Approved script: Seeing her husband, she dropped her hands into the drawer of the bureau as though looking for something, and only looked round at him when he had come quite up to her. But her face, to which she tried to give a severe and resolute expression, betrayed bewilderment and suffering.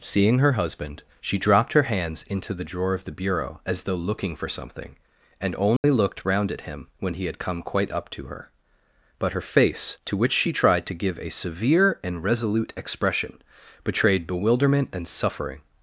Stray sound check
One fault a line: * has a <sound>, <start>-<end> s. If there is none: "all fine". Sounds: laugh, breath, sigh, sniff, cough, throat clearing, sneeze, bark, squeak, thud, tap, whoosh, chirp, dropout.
* has a dropout, 5.8-5.8 s